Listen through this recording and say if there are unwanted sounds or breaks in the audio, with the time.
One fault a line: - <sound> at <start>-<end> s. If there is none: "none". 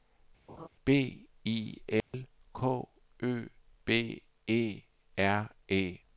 - laugh at 0.5-0.7 s
- dropout at 2.0-2.1 s